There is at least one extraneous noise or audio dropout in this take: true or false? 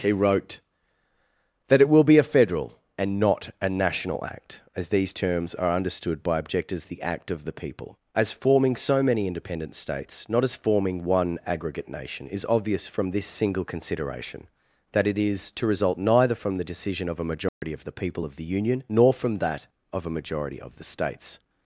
true